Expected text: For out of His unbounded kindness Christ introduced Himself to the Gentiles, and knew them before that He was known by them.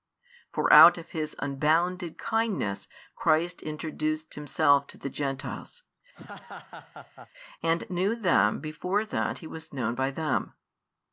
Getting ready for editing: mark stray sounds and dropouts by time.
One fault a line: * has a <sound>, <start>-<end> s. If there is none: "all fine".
* has a laugh, 6.1-7.3 s